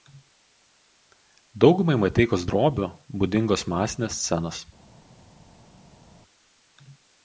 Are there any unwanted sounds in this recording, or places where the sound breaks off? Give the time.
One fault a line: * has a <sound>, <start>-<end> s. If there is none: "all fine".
all fine